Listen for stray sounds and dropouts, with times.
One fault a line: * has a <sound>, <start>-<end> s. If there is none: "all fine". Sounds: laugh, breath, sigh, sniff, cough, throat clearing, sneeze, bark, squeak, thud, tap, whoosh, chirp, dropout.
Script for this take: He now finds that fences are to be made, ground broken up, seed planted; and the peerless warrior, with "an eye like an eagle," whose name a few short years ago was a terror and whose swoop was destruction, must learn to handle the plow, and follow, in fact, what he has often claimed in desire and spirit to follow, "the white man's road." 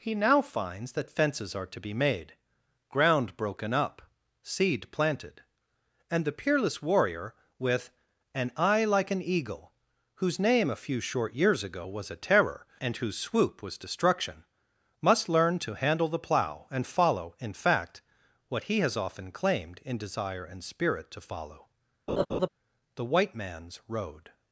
* has a laugh, 22.1-22.5 s